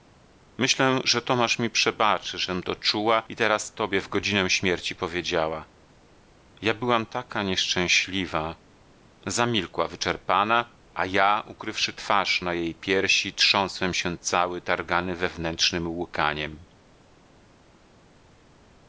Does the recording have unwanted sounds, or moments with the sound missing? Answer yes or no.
no